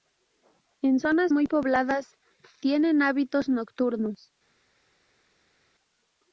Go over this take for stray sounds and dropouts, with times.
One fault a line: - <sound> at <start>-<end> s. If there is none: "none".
none